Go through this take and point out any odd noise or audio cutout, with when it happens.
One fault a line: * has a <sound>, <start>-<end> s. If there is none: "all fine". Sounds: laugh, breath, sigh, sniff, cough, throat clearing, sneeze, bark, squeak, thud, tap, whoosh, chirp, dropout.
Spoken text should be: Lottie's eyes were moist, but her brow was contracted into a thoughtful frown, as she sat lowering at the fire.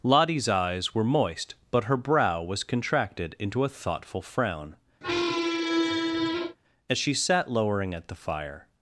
* has a squeak, 5.0-6.6 s